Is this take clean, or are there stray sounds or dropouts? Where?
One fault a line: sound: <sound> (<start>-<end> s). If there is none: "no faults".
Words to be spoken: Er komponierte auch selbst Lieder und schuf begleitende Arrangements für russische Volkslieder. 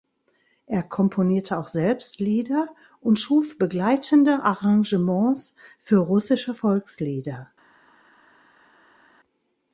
no faults